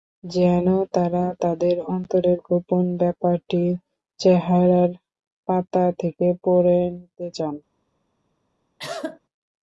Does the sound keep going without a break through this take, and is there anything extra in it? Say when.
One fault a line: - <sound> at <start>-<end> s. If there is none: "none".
- cough at 8.8-9.2 s